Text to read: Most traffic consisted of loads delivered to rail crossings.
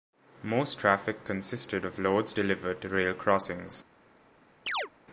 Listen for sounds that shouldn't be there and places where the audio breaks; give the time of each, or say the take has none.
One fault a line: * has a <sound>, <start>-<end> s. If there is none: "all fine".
* has a chirp, 4.7-4.9 s